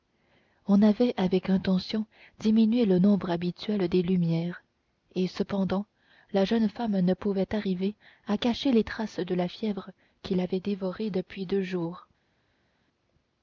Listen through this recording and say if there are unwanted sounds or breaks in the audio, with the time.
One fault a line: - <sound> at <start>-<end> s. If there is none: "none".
none